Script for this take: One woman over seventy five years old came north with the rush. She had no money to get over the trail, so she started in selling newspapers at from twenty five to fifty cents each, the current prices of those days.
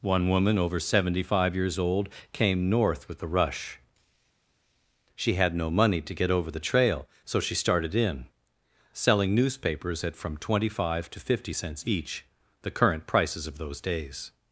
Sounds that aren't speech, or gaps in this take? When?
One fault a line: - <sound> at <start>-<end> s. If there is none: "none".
none